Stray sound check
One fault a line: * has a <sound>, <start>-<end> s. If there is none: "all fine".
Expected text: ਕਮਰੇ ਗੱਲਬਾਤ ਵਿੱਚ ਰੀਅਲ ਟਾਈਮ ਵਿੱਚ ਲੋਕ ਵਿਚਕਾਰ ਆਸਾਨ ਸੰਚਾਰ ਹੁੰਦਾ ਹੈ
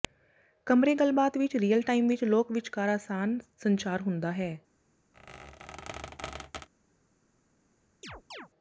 * has a squeak, 5.1-6.7 s
* has a chirp, 8.0-8.5 s